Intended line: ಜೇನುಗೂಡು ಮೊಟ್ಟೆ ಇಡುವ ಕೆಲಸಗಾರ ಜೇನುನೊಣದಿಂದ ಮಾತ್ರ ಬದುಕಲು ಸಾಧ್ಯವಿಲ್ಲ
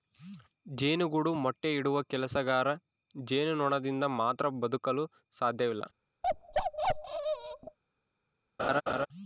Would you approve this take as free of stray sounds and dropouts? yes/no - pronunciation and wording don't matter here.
no